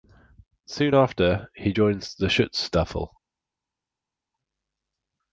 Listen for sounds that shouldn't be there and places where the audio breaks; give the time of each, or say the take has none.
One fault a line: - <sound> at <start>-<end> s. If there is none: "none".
none